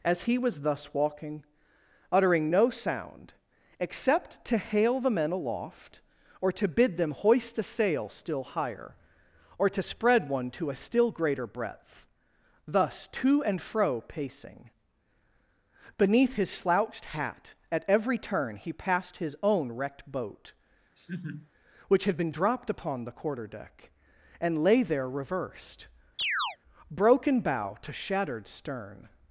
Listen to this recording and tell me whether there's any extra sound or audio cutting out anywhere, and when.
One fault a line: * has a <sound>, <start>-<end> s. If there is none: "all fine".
* has a laugh, 21.0-21.5 s
* has a chirp, 26.2-26.6 s